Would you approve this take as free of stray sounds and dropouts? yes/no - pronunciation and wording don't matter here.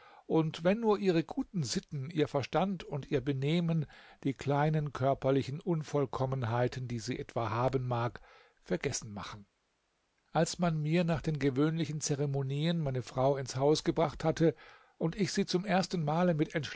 yes